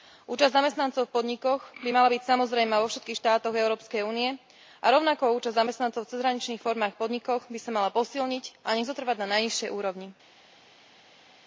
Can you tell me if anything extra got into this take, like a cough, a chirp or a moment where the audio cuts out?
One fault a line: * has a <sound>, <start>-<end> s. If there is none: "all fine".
all fine